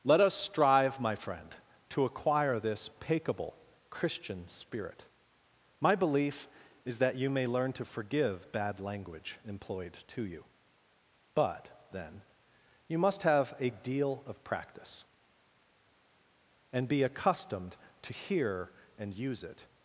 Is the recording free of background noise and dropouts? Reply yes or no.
yes